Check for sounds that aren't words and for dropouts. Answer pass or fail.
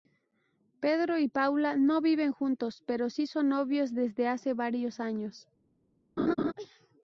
fail